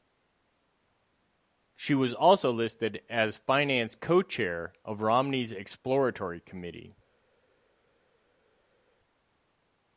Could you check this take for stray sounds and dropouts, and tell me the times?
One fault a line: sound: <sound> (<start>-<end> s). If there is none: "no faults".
no faults